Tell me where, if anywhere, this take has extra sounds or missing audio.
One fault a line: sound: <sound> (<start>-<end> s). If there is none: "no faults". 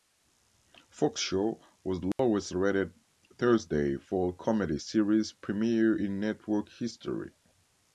sound: dropout (2.1-2.2 s)